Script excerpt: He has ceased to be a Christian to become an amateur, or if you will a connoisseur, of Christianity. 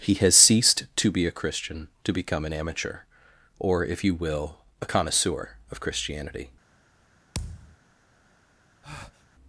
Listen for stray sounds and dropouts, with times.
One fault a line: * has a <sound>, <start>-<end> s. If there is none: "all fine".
* has a thud, 7.3-7.8 s
* has a breath, 8.8-9.3 s